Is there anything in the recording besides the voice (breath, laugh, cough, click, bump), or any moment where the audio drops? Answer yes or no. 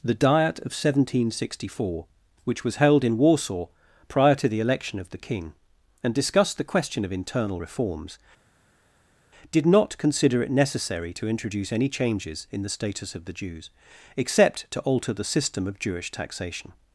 no